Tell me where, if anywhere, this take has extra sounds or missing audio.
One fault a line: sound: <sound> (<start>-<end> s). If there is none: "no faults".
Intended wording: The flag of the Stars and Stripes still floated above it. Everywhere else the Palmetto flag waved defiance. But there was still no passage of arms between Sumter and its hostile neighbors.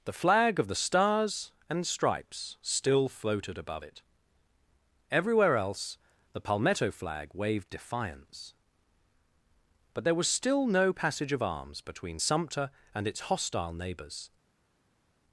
no faults